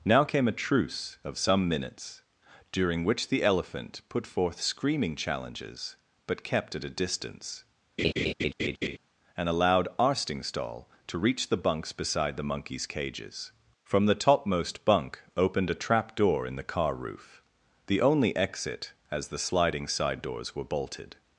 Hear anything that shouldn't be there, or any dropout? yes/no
yes